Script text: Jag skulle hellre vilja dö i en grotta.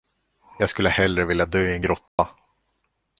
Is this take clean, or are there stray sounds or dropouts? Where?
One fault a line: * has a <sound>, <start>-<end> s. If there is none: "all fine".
* has a dropout, 2.1-2.2 s